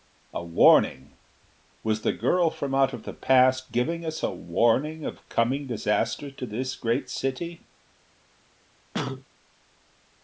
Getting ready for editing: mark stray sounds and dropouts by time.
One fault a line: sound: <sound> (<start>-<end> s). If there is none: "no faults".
sound: cough (8.9-9.3 s)